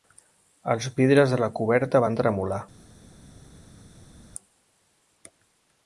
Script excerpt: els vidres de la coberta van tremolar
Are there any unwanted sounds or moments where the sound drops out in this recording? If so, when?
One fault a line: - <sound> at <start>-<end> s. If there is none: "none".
none